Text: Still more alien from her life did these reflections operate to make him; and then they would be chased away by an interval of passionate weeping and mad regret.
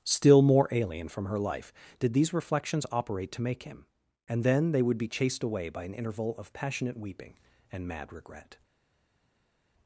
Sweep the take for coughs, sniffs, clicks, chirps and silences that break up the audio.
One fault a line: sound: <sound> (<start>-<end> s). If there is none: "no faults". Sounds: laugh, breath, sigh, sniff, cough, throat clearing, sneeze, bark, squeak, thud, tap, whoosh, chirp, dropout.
no faults